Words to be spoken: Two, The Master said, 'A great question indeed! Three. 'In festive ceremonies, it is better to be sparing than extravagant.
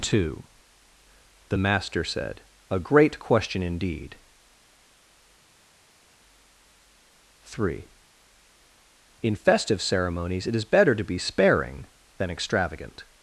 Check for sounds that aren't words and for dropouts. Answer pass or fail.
pass